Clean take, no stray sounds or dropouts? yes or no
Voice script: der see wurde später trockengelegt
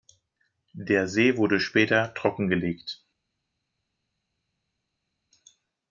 yes